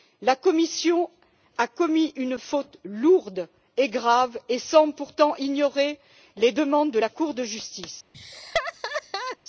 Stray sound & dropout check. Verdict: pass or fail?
fail